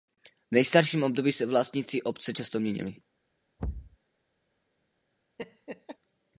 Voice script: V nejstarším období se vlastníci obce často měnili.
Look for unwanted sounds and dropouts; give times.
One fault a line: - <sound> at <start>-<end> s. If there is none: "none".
- thud at 3.6-4.0 s
- laugh at 5.4-6.0 s